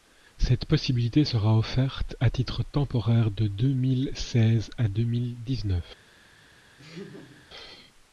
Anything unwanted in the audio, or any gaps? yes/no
yes